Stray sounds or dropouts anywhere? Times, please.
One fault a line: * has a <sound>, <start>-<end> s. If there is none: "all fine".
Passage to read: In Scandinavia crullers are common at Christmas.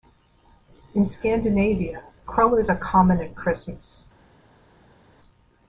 all fine